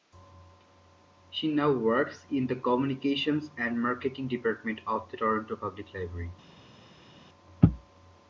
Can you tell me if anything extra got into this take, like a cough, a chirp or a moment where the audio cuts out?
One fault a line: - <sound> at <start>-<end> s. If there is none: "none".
none